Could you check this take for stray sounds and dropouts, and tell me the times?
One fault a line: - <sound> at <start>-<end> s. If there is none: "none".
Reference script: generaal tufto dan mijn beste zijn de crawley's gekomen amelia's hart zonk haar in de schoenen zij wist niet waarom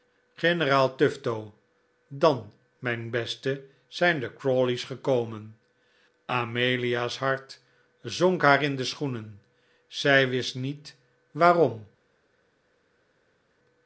none